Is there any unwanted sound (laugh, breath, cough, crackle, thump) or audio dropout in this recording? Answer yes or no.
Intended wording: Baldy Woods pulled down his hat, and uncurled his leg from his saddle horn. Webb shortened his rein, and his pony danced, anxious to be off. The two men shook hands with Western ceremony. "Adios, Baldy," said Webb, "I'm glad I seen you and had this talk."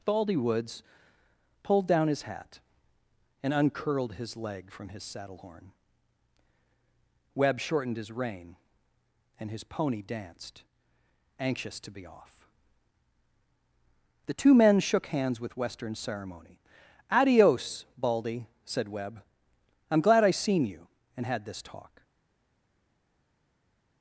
no